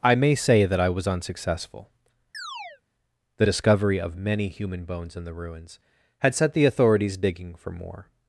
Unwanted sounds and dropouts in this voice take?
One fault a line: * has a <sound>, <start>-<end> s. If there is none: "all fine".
* has a chirp, 2.3-2.8 s